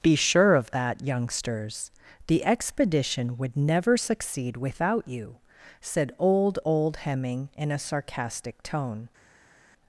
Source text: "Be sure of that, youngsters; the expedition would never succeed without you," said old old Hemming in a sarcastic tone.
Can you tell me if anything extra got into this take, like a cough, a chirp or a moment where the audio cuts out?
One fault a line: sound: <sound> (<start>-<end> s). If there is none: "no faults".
no faults